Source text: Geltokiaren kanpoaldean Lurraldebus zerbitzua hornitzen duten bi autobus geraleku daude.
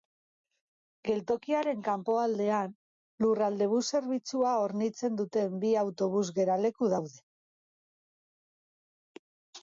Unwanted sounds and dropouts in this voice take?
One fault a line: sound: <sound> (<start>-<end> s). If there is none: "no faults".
no faults